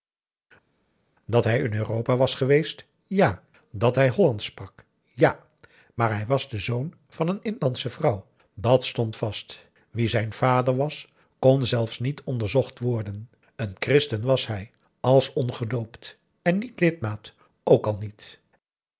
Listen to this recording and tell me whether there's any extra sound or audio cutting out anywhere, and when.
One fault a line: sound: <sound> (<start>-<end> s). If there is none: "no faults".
no faults